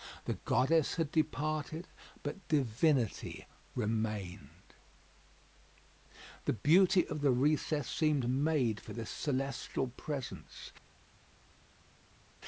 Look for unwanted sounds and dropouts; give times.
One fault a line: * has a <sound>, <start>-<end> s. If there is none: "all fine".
all fine